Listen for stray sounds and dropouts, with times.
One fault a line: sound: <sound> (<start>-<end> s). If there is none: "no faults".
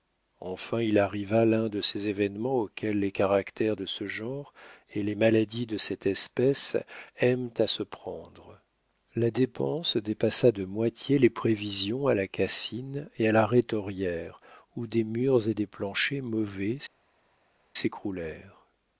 no faults